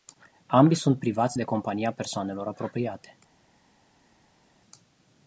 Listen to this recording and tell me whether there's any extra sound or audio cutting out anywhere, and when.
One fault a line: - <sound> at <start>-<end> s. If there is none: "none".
none